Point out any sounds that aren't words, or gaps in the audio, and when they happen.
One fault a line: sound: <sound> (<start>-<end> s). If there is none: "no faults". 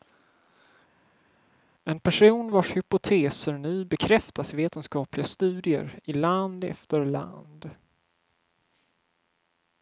no faults